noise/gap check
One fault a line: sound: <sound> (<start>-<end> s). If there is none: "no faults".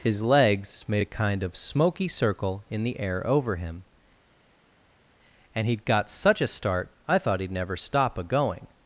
no faults